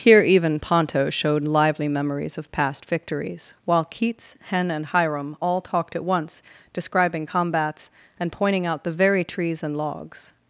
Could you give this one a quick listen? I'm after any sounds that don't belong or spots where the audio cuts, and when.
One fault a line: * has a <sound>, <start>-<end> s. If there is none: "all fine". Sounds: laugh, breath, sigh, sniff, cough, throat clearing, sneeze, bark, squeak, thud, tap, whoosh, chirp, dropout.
all fine